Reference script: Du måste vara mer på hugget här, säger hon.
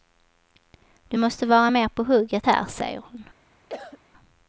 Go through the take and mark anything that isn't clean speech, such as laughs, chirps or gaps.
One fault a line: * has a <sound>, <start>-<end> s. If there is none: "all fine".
* has a cough, 3.7-4.0 s